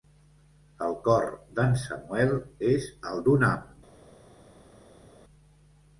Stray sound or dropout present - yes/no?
no